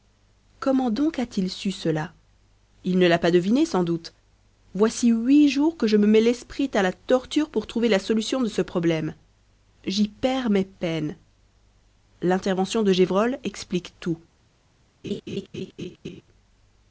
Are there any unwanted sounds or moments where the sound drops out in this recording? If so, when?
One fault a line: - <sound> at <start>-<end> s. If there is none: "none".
- laugh at 15.0-16.2 s